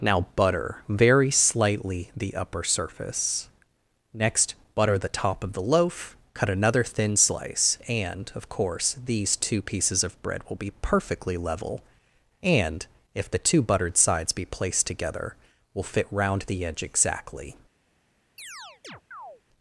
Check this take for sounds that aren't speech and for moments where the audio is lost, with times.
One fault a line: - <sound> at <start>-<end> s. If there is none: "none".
- chirp at 18.4-19.4 s